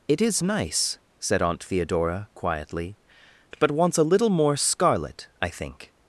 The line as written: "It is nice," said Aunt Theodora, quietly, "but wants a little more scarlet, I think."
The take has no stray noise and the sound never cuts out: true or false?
true